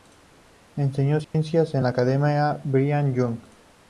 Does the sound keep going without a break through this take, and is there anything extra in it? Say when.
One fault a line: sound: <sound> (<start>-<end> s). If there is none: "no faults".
sound: dropout (1.2-1.3 s)